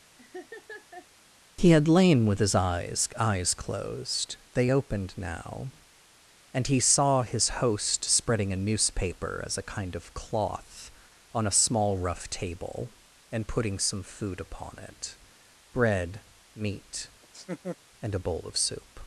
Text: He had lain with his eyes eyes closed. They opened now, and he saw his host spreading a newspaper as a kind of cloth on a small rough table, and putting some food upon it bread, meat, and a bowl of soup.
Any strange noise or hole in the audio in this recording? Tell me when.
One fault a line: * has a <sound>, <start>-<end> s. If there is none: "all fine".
* has a laugh, 0.2-1.1 s
* has a laugh, 17.2-17.8 s